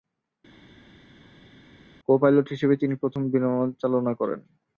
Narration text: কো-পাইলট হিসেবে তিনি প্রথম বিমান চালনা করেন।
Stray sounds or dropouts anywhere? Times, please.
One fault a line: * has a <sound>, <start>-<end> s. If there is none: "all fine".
all fine